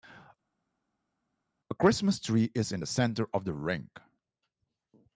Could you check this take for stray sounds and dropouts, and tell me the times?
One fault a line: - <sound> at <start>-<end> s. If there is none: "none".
none